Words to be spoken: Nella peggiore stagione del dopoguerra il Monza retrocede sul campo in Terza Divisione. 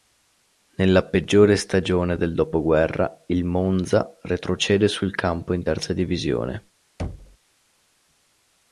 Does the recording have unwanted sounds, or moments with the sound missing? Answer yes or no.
yes